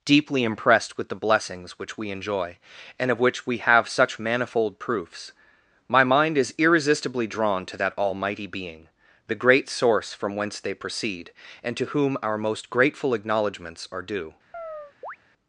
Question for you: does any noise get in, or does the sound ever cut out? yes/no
yes